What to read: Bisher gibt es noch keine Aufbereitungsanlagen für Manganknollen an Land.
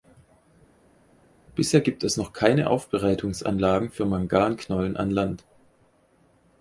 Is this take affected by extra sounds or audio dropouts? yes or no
no